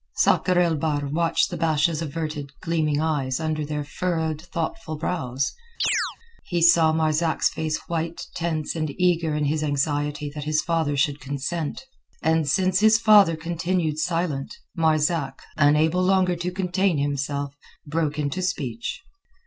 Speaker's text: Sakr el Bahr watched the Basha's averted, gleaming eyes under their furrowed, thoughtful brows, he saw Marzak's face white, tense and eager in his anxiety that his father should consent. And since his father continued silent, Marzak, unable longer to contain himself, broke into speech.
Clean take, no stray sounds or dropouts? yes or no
no